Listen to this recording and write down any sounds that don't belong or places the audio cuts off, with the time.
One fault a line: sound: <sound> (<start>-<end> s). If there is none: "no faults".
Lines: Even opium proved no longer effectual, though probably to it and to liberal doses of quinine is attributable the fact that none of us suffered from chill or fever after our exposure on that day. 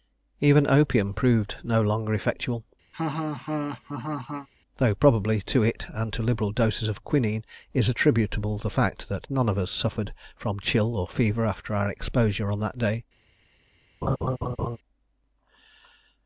sound: laugh (2.9-4.5 s)
sound: laugh (14.0-14.8 s)